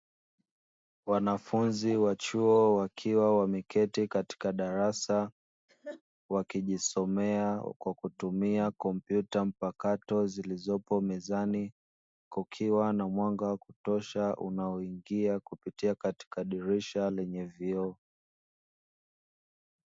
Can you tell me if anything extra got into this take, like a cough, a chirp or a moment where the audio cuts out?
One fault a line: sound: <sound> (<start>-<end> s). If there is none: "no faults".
sound: laugh (5.7-6.0 s)